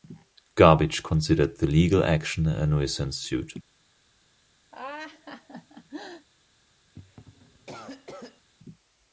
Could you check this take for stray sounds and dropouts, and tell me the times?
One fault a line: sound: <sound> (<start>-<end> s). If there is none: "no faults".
sound: laugh (4.7-6.3 s)
sound: cough (6.9-8.5 s)